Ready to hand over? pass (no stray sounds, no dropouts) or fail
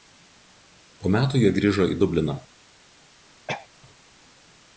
fail